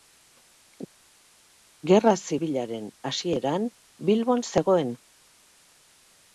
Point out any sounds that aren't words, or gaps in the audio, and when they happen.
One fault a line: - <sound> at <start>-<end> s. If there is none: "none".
none